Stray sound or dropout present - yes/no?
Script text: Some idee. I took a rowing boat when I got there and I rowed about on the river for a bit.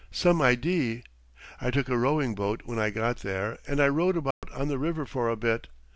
yes